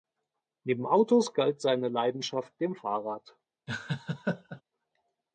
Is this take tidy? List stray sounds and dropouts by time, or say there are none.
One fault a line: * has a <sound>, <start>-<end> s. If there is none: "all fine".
* has a laugh, 3.7-4.6 s